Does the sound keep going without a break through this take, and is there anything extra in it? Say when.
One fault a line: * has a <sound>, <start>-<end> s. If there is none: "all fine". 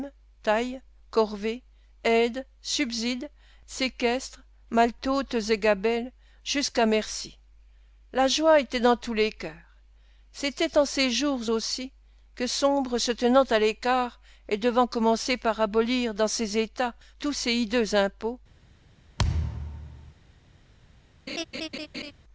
* has a thud, 19.2-20.1 s
* has a laugh, 21.3-22.1 s